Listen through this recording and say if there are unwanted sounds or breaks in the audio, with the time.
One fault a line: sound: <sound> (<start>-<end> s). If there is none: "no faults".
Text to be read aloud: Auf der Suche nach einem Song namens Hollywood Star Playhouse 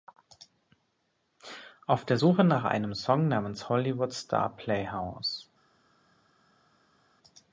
no faults